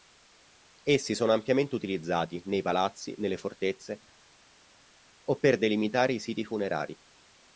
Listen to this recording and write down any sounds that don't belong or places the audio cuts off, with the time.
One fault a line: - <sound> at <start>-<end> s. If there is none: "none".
none